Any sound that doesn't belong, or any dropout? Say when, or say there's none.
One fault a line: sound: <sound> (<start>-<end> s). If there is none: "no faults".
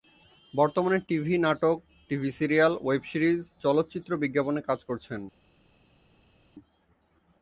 no faults